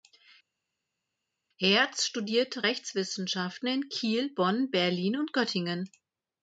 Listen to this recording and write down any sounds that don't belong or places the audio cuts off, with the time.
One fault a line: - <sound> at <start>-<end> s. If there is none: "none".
none